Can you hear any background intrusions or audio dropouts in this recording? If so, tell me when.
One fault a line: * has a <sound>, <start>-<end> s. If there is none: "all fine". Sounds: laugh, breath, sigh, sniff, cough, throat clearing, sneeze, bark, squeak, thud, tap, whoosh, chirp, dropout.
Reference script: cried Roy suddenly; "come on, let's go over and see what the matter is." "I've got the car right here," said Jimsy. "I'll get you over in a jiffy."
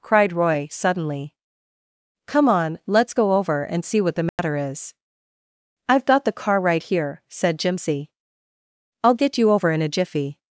* has a dropout, 4.3-4.4 s